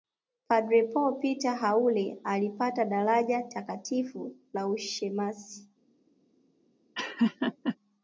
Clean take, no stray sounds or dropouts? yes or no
no